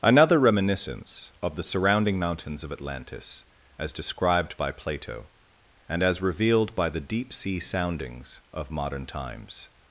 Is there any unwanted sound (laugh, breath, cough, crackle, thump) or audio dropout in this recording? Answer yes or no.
no